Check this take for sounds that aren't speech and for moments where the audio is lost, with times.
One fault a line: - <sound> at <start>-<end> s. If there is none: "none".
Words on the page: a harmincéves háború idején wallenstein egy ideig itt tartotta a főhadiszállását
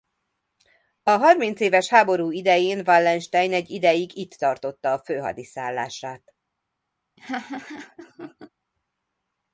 - laugh at 7.2-8.5 s